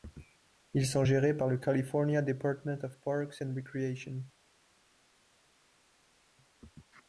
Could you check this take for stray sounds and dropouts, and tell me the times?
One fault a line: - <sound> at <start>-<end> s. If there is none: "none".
none